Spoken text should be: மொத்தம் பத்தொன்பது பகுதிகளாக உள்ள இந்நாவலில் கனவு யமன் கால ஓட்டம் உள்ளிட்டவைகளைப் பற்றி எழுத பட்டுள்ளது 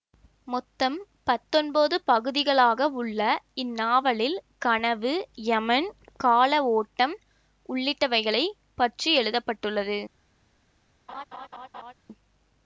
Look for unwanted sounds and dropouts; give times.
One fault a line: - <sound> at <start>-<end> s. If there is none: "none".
- laugh at 11.1-11.9 s